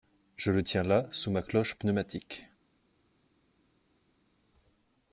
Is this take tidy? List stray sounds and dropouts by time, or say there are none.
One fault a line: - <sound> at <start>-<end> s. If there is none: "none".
none